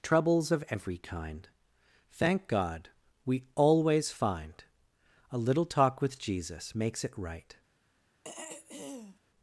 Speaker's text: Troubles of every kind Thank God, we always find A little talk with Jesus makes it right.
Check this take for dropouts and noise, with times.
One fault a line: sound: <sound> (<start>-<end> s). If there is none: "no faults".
sound: throat clearing (8.2-9.2 s)